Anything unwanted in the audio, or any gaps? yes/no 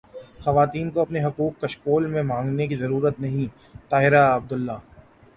no